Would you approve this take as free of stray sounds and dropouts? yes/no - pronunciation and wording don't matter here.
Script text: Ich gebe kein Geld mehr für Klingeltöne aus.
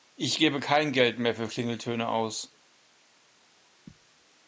yes